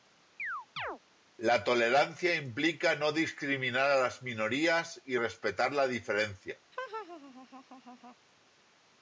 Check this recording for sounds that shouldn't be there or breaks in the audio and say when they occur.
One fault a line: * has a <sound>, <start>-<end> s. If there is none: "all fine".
* has a chirp, 0.4-1.0 s
* has a laugh, 6.7-8.2 s